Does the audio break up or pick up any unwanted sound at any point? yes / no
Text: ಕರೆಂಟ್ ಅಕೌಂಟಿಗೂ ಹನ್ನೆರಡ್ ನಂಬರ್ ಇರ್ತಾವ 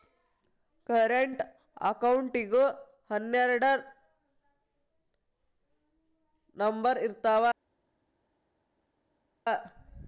no